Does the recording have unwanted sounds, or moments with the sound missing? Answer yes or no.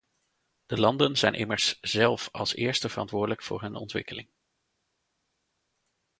no